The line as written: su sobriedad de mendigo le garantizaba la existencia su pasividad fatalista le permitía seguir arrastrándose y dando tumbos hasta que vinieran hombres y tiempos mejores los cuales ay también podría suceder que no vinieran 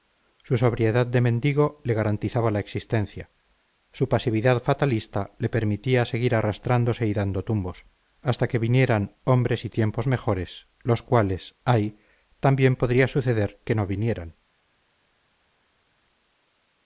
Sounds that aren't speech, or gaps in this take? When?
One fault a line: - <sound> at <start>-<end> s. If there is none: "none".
none